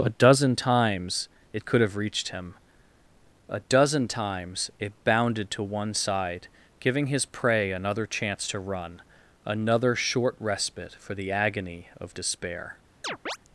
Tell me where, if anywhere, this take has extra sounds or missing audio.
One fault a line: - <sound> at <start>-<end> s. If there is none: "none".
- chirp at 13.0-13.4 s